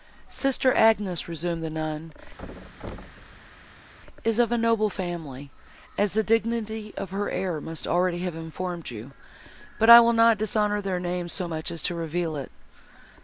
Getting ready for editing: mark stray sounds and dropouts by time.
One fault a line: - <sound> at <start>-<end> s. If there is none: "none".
- thud at 2.4-3.9 s